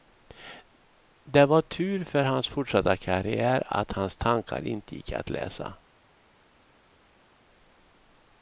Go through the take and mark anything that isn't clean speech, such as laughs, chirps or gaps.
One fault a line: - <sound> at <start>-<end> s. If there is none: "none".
none